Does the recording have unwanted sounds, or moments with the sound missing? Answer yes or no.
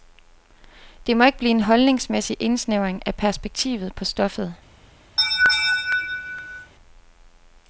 yes